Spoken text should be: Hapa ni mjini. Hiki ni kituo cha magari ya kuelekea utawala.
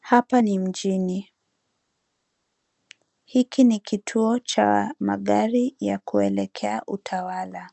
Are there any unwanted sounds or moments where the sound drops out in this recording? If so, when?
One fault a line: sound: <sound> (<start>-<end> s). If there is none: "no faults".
no faults